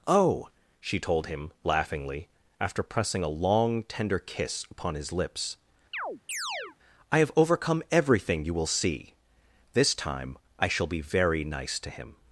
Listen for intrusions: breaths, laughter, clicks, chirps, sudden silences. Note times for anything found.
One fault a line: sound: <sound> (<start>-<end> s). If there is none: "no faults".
sound: chirp (5.9-6.8 s)